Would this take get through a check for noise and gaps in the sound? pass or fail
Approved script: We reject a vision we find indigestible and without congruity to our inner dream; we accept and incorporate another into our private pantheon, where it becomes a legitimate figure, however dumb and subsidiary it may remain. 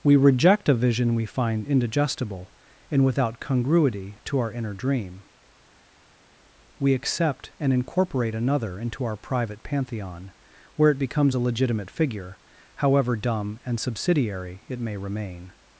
pass